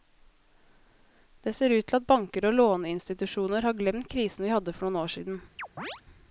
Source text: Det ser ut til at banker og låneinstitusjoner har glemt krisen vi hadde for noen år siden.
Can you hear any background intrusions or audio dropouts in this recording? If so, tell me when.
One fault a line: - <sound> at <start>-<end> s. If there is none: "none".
- chirp at 5.6-6.0 s